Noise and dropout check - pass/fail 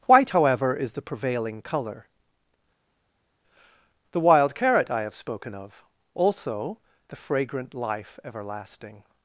pass